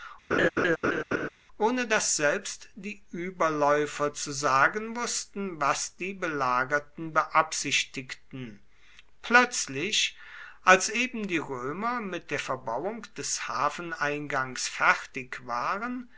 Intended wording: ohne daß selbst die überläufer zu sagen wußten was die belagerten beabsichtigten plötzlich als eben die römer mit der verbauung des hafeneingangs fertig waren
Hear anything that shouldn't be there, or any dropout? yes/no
yes